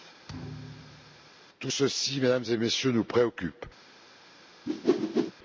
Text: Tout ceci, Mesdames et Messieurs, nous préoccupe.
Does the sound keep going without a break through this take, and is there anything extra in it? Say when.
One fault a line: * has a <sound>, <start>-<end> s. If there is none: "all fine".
* has a thud, 0.3-1.3 s
* has a whoosh, 4.7-5.3 s